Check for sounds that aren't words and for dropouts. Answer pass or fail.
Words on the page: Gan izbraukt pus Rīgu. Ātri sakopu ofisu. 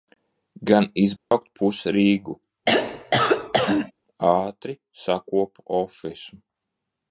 fail